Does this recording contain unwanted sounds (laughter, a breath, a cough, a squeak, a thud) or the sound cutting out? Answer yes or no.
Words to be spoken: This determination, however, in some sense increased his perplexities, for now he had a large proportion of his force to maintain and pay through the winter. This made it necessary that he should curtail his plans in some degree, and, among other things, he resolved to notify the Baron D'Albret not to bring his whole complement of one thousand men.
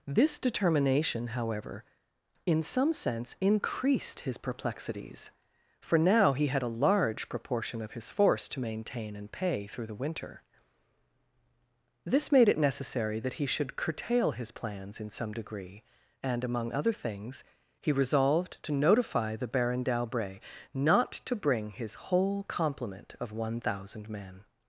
no